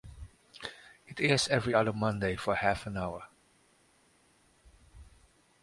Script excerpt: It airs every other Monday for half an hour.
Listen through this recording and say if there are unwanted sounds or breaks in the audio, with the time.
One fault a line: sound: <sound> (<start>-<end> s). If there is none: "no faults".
no faults